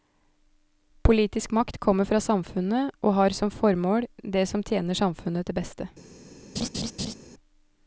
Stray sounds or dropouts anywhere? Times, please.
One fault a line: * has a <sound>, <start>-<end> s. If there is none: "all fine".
* has a laugh, 6.6-7.1 s